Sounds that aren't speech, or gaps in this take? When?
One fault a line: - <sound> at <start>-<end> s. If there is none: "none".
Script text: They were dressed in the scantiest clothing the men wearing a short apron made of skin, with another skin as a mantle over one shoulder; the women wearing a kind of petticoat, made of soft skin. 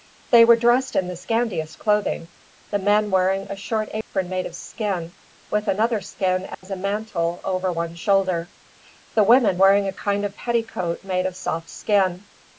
- dropout at 4.0-4.1 s
- dropout at 6.5-6.6 s